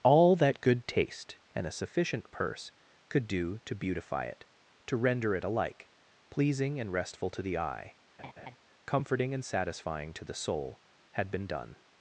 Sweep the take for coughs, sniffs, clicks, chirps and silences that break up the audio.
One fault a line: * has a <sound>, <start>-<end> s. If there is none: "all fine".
* has a laugh, 8.2-8.6 s